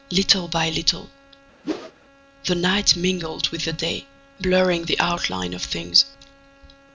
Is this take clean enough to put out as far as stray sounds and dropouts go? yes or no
no